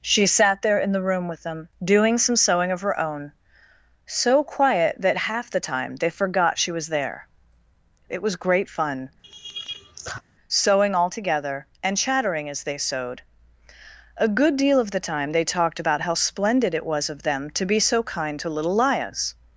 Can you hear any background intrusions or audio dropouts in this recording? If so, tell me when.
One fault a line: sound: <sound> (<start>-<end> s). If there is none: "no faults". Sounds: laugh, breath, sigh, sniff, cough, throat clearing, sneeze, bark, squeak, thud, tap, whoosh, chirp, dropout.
sound: laugh (9.2-10.2 s)